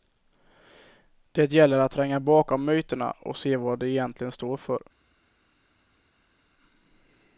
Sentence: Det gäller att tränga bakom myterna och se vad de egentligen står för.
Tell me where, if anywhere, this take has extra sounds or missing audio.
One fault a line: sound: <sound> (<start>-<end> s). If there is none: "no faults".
no faults